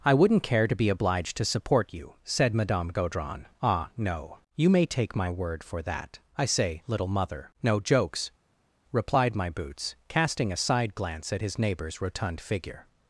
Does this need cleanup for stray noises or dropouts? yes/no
no